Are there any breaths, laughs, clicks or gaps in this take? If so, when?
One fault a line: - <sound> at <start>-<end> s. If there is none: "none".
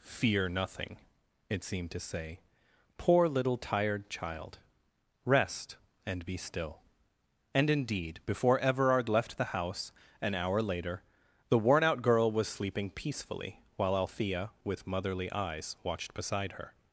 none